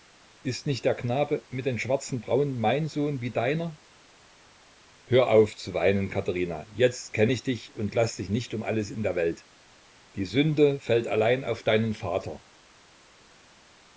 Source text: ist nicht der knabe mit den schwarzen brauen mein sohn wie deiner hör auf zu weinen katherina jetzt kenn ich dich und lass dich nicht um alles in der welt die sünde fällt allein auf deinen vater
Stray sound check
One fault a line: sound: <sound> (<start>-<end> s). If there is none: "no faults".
no faults